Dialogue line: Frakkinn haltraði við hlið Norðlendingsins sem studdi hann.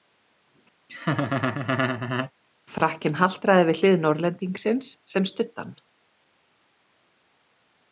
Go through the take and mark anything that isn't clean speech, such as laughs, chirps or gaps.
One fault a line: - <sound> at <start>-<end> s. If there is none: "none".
- laugh at 0.9-2.3 s